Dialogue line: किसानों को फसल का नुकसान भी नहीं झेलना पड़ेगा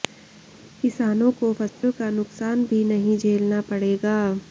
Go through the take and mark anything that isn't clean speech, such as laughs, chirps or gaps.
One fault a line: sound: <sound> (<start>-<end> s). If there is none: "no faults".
sound: dropout (1.7-1.8 s)